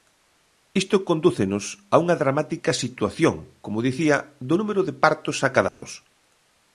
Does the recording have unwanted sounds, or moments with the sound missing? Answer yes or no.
yes